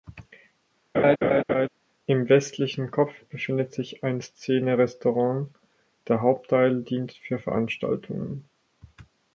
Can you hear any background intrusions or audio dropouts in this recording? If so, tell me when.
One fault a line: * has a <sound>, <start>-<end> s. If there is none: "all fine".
* has a laugh, 0.9-1.7 s